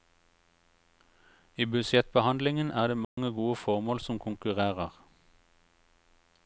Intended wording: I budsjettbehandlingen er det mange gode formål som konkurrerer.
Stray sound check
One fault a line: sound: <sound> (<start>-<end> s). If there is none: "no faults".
sound: dropout (3.0-3.2 s)